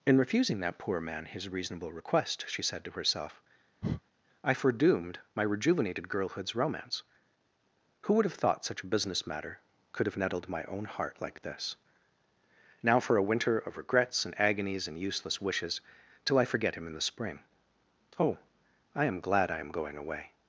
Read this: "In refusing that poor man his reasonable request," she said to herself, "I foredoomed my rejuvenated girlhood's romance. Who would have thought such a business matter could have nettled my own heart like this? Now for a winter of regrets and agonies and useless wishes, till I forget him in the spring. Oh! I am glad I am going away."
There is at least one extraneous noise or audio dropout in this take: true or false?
true